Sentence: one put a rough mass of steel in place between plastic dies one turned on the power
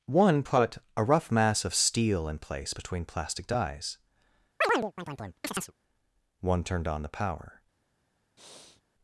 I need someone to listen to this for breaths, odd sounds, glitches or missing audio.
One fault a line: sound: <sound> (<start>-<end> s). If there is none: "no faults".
sound: chirp (4.6-5.7 s)
sound: breath (8.4-8.8 s)